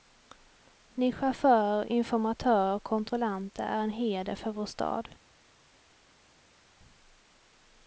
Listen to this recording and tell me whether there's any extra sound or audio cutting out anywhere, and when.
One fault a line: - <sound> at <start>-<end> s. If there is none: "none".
none